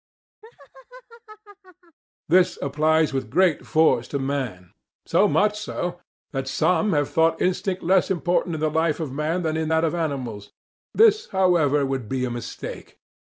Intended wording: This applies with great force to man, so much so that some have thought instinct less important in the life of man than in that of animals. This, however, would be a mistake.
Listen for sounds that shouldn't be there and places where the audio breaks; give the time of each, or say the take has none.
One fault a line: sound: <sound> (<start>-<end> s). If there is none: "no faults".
sound: laugh (0.4-2.0 s)